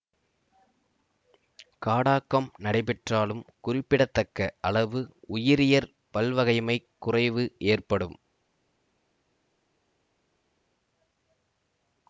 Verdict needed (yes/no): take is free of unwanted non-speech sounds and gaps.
yes